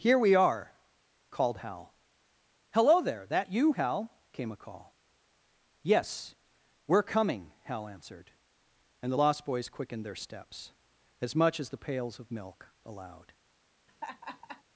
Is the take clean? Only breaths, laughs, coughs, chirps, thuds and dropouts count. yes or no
no